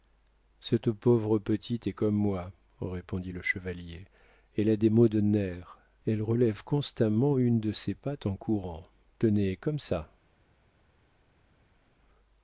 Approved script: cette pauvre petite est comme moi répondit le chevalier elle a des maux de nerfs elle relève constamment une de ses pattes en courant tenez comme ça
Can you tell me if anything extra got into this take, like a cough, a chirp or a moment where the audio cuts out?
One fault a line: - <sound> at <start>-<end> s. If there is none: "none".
none